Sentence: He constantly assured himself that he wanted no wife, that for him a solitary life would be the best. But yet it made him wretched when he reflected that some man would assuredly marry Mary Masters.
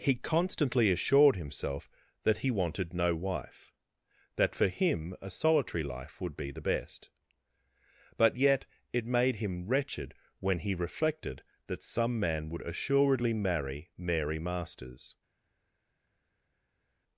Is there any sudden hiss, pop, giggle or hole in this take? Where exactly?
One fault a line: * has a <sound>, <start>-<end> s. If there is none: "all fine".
all fine